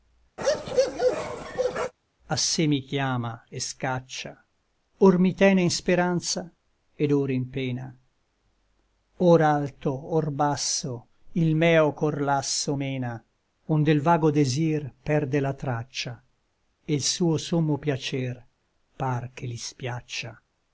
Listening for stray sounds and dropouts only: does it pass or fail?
fail